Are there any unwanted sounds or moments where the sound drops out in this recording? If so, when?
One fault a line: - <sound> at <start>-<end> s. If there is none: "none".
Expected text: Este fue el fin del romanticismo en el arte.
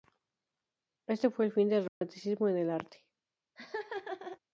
- dropout at 1.9-2.0 s
- laugh at 3.6-4.4 s